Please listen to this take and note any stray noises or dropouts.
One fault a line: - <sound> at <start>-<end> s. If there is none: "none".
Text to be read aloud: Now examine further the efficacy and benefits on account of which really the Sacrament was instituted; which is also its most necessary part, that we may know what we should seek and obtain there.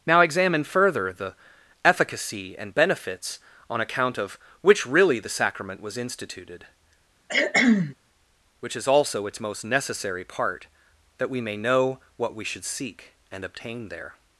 - cough at 7.3-8.0 s